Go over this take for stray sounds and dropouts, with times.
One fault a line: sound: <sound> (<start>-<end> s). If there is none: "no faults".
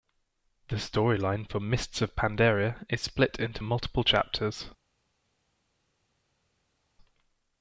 no faults